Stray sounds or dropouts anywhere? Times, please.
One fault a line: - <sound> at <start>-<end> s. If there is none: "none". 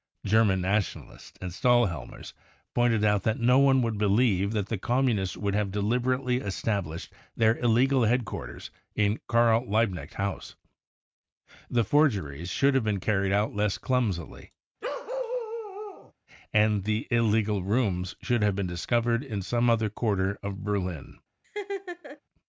- bark at 14.8-16.1 s
- laugh at 21.4-22.2 s